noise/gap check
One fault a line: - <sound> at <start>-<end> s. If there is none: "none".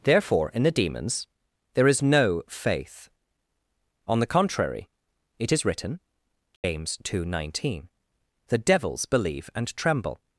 - dropout at 6.6-6.6 s